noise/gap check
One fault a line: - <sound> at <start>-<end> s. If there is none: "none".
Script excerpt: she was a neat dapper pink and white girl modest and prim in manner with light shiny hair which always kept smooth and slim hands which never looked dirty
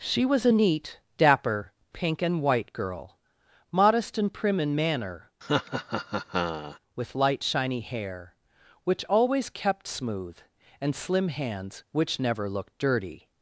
- laugh at 5.4-6.8 s